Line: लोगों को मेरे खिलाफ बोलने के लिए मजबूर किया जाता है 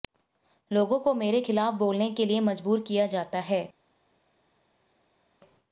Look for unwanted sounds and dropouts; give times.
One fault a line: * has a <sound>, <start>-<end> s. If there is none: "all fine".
all fine